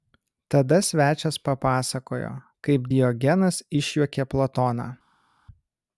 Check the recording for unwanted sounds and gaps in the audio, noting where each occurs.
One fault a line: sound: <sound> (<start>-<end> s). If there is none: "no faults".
no faults